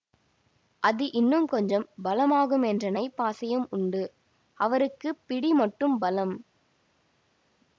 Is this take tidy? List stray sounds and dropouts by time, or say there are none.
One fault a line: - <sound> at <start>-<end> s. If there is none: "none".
none